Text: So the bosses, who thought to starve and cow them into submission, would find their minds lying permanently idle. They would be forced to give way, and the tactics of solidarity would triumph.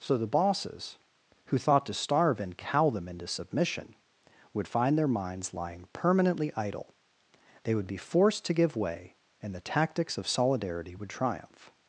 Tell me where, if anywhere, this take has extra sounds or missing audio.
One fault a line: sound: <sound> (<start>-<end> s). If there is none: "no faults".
no faults